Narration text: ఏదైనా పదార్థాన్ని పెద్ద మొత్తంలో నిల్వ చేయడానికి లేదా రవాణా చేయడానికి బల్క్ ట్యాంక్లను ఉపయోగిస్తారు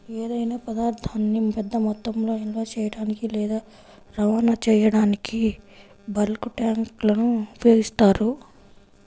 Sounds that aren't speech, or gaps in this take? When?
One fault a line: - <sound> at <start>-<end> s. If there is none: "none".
none